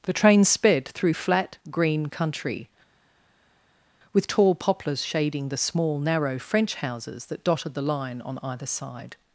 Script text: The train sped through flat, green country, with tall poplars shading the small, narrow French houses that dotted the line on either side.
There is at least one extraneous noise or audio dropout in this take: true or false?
false